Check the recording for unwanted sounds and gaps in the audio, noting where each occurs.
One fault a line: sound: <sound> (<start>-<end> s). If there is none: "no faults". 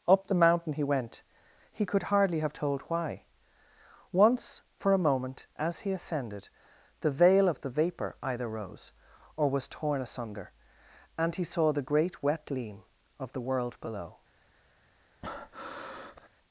sound: breath (15.2-16.3 s)